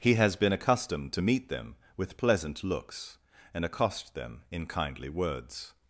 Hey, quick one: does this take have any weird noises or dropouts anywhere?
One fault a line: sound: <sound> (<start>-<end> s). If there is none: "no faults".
no faults